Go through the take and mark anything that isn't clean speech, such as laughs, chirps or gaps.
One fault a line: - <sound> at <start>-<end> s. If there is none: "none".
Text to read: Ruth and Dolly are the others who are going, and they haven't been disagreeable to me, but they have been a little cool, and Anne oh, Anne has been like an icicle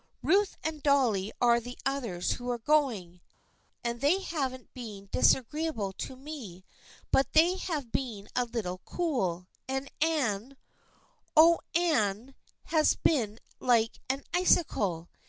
none